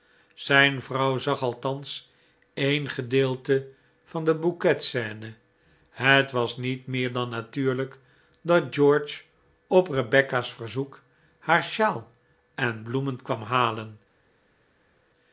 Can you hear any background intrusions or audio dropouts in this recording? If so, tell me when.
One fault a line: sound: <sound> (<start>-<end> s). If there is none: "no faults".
no faults